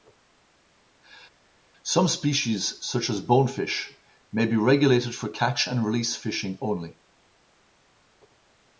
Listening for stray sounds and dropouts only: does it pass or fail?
pass